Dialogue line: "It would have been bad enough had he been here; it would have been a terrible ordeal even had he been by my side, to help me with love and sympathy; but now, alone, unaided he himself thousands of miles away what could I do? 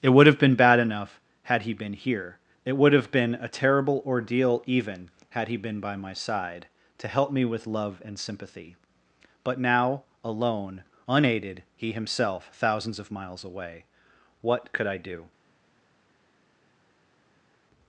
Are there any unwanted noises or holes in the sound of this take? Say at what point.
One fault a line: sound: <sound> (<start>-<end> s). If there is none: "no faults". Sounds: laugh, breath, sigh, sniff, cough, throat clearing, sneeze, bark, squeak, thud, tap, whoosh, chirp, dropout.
no faults